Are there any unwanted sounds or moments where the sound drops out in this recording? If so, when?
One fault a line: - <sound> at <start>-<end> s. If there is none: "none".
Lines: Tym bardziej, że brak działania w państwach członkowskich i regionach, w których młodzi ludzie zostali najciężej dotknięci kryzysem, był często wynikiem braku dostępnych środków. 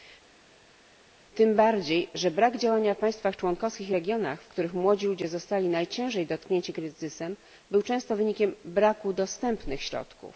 none